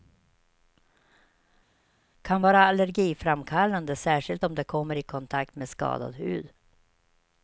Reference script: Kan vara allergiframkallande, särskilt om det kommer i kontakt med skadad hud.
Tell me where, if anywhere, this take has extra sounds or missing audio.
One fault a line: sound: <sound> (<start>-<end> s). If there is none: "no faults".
no faults